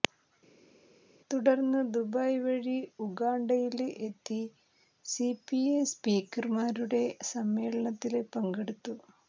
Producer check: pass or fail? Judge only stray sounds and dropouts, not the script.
pass